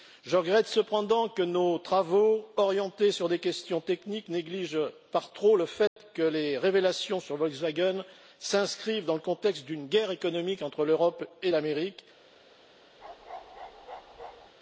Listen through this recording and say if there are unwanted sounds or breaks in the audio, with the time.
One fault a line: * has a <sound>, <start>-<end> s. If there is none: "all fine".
* has a dropout, 5.9-6.0 s
* has a bark, 13.0-14.5 s